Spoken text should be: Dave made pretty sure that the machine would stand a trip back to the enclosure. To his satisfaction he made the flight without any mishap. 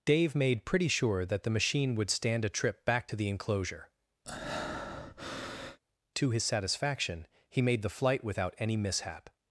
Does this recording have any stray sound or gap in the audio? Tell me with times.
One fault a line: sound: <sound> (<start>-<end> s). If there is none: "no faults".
sound: breath (4.2-5.8 s)